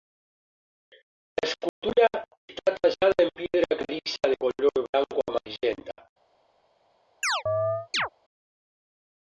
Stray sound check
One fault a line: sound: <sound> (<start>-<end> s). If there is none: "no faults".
sound: dropout (1.7-1.8 s)
sound: chirp (7.2-8.1 s)